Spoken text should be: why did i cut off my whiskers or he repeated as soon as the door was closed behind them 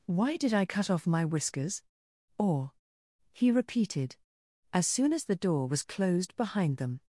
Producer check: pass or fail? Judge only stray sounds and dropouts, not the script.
pass